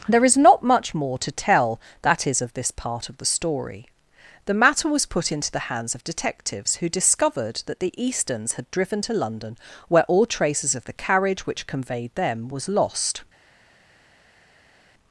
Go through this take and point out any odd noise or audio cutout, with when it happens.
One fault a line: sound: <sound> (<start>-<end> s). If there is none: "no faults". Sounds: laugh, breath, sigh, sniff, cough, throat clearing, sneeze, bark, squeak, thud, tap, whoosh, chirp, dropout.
no faults